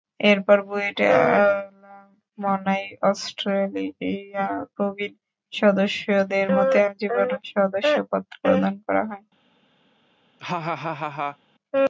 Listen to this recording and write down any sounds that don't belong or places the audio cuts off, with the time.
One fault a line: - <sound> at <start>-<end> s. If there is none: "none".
- laugh at 10.4-11.4 s